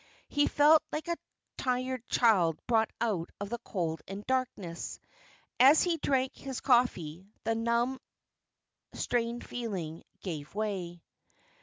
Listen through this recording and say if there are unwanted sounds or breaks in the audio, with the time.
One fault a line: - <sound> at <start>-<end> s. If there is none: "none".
none